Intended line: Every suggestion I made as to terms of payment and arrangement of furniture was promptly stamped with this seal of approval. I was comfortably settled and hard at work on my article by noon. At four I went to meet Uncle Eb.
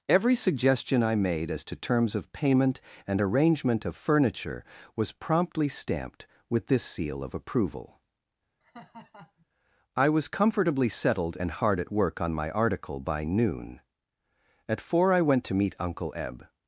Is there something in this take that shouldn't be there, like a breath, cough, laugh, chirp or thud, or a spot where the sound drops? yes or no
yes